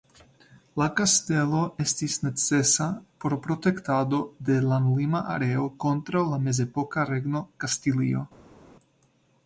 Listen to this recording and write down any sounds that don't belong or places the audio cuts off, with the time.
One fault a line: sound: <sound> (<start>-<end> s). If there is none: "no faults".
no faults